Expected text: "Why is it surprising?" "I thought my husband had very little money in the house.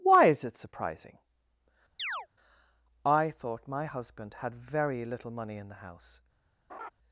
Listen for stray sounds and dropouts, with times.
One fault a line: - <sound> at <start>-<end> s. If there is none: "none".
- chirp at 2.0-2.3 s
- laugh at 6.7-6.9 s